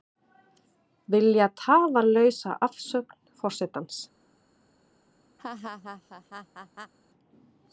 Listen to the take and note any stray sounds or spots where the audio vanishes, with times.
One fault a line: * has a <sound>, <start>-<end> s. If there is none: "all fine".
* has a laugh, 5.4-6.9 s